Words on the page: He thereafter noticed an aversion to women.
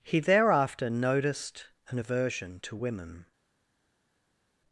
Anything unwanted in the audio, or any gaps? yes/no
no